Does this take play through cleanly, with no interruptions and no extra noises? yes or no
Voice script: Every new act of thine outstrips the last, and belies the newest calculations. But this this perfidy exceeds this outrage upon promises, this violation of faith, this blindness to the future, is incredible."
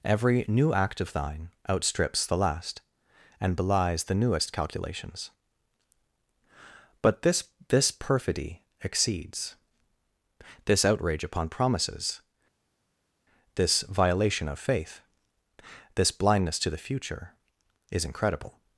yes